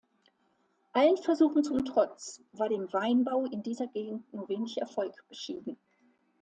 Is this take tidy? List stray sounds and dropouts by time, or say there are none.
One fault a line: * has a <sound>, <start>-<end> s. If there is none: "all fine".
all fine